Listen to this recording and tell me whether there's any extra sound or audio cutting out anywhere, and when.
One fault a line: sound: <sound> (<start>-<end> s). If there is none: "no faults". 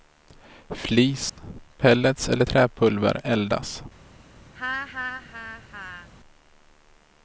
sound: dropout (1.3-1.4 s)
sound: laugh (4.5-6.1 s)